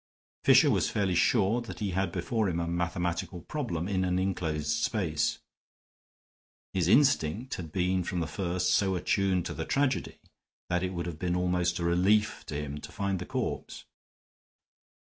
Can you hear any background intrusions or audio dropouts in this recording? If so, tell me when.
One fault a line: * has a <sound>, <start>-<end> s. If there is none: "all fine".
all fine